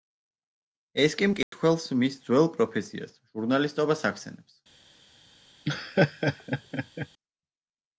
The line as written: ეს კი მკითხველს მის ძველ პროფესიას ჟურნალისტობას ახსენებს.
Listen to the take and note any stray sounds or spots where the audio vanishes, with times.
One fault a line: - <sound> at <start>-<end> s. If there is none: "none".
- dropout at 1.4-1.5 s
- laugh at 5.7-7.1 s